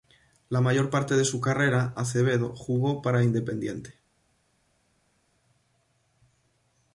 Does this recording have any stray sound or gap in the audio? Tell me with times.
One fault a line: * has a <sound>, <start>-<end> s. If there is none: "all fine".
all fine